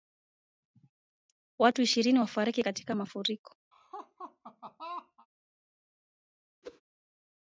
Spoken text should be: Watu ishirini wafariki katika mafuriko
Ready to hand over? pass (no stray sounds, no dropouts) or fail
fail